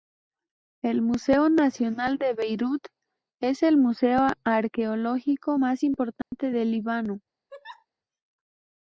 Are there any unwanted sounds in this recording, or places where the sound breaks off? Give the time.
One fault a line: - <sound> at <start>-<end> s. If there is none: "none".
- dropout at 6.2-6.3 s
- laugh at 7.5-7.9 s